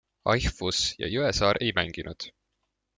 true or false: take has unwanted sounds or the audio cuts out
false